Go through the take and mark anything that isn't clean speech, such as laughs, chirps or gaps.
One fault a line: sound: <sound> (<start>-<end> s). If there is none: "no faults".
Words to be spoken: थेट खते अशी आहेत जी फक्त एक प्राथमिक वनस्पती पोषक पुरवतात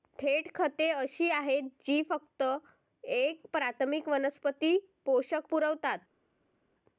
no faults